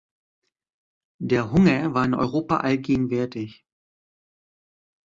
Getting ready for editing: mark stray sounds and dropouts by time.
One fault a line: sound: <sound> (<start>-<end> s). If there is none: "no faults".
no faults